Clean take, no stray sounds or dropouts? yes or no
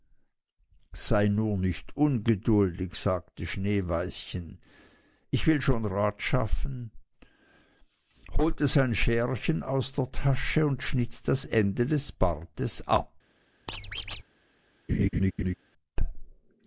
no